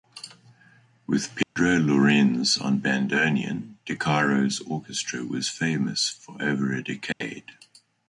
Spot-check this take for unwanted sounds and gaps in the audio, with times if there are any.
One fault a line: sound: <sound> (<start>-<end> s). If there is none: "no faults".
sound: dropout (1.4-1.6 s)
sound: dropout (7.1-7.2 s)